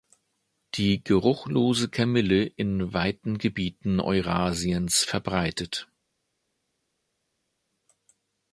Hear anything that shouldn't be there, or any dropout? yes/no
no